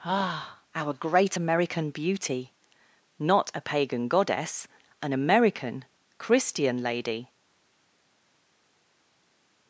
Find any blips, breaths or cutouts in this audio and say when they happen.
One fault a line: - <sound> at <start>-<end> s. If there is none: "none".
none